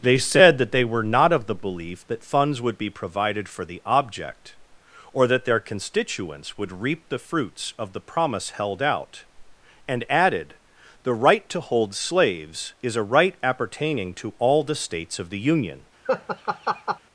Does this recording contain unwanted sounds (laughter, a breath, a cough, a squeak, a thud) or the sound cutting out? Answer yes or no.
yes